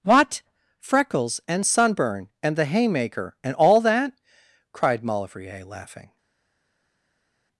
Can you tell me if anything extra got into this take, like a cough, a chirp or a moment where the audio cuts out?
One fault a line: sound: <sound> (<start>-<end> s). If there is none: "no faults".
no faults